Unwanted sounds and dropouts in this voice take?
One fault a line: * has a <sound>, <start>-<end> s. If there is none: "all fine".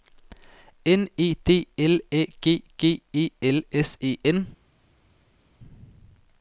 all fine